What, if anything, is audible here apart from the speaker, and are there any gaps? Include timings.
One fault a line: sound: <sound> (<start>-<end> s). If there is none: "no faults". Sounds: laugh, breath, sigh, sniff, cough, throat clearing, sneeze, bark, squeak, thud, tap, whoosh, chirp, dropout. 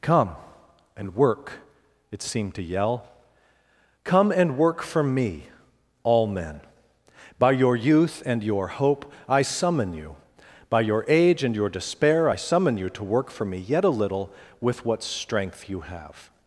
no faults